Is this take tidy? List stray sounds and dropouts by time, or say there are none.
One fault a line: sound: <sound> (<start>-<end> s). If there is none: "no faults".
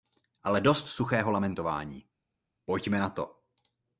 no faults